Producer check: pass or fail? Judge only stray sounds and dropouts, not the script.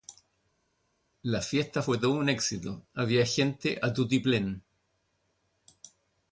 pass